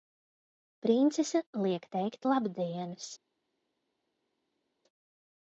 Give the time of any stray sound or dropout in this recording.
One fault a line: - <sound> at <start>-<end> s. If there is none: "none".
none